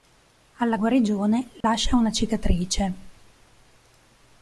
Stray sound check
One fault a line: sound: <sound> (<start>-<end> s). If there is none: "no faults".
sound: dropout (1.6-1.6 s)